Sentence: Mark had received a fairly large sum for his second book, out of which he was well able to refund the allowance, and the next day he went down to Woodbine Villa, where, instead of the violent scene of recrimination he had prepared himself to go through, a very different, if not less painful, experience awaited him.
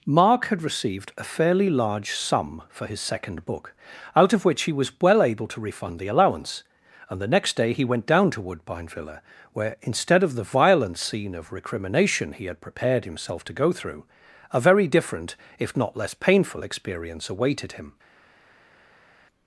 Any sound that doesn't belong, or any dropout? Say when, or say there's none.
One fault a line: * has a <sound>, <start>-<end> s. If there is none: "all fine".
all fine